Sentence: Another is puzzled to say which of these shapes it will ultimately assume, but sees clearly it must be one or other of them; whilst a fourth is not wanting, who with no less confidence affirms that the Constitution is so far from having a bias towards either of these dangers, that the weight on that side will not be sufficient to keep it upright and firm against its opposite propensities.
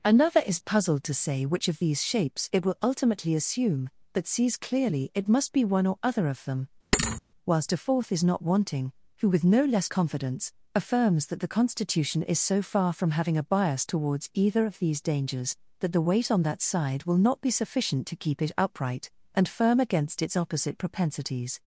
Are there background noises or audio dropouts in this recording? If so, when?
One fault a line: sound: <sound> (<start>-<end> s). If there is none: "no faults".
sound: thud (6.9-7.2 s)